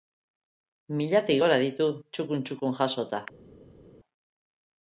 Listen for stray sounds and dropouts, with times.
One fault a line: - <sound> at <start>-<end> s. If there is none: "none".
none